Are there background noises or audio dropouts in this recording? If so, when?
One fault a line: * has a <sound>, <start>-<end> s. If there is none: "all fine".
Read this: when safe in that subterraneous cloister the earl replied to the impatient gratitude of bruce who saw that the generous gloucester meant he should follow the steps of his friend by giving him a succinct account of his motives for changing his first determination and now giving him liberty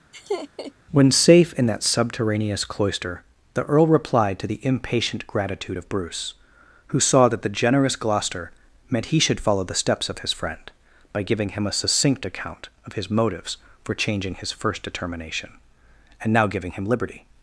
* has a laugh, 0.1-0.7 s